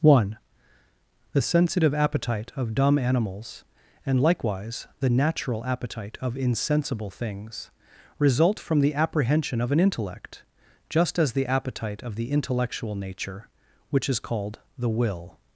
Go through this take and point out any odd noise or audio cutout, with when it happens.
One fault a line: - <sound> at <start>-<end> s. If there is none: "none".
none